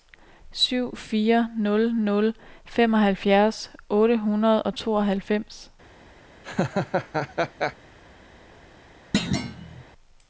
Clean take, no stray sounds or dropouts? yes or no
no